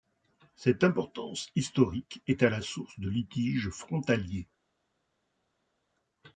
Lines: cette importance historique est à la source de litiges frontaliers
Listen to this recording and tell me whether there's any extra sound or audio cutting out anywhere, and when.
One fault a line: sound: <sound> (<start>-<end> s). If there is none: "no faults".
no faults